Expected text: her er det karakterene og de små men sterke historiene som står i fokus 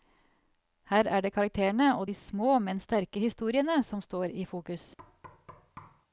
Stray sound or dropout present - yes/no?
yes